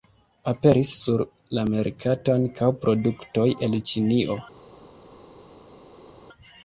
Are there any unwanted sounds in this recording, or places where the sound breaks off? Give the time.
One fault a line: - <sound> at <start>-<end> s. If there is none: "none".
none